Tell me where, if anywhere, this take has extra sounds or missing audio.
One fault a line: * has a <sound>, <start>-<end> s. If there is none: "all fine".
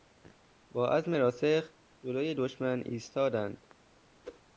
* has a whoosh, 4.2-4.4 s